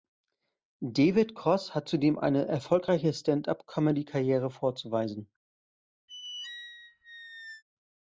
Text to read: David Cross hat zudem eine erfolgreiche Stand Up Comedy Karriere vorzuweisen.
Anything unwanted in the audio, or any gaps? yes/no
yes